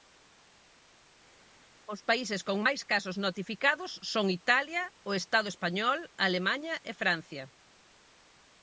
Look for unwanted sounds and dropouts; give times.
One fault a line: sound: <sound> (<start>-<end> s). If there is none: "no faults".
no faults